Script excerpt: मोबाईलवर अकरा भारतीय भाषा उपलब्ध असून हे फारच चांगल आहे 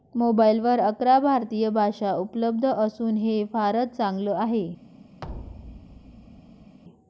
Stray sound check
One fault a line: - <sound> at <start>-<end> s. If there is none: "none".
- thud at 5.2-6.8 s